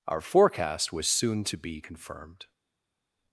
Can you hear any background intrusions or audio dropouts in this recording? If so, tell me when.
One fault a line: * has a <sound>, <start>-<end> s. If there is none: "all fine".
all fine